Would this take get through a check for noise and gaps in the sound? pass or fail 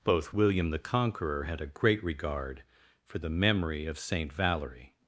pass